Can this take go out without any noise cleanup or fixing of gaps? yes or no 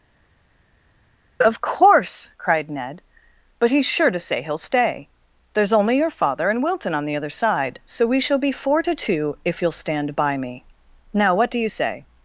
yes